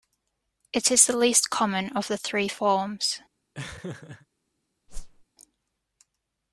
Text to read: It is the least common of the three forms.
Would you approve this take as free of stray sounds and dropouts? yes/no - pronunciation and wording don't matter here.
no